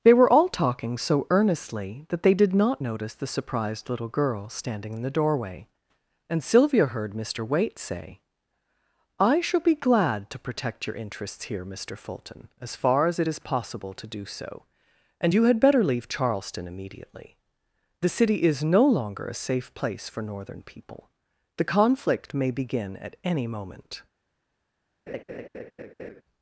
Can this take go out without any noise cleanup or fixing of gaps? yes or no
no